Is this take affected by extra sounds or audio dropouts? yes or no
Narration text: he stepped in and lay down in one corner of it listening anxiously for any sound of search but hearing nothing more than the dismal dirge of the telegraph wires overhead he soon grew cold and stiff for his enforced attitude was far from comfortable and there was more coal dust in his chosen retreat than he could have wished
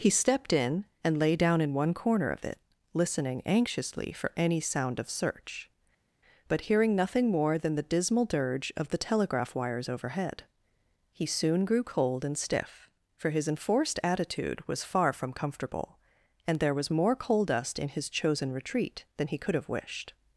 no